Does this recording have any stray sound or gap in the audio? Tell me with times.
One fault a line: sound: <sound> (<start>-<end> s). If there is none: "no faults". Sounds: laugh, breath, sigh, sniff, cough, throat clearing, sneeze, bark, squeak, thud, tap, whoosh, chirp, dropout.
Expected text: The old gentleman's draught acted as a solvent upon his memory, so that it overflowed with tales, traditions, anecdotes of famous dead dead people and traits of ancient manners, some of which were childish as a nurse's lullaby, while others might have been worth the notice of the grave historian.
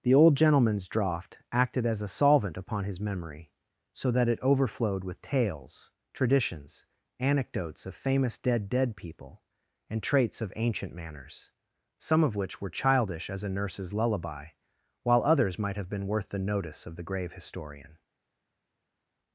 no faults